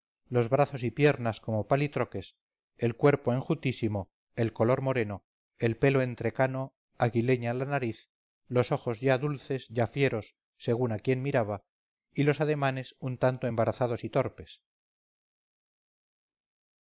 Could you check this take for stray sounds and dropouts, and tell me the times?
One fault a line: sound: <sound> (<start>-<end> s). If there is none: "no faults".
no faults